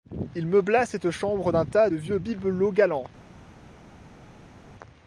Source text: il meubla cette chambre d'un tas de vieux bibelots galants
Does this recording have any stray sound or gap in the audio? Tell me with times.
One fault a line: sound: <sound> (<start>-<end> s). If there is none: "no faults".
no faults